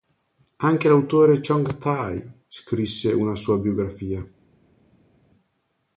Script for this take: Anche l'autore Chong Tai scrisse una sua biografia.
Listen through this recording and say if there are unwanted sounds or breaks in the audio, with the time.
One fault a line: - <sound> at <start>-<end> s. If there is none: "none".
none